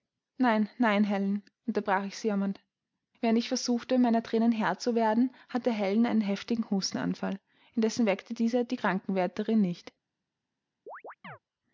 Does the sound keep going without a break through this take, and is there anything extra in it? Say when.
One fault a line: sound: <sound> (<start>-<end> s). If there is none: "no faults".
sound: chirp (10.9-11.4 s)